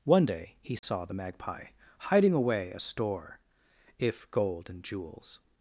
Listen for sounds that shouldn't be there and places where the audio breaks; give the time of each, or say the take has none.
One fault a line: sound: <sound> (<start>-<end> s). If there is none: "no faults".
sound: dropout (0.8-0.8 s)